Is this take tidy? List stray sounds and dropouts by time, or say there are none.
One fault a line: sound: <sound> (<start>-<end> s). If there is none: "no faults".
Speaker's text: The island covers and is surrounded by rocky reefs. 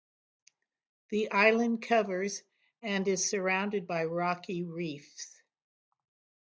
no faults